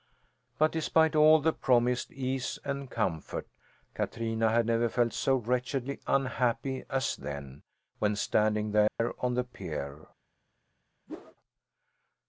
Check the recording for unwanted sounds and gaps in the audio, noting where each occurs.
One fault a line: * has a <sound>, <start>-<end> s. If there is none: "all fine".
* has a dropout, 8.9-9.0 s
* has a whoosh, 11.1-11.4 s